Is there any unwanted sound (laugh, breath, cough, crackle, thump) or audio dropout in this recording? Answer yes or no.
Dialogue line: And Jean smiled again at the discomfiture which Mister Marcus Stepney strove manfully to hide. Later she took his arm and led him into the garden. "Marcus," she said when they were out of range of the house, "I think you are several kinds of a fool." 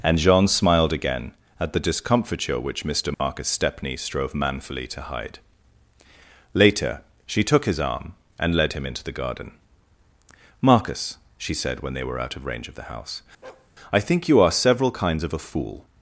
yes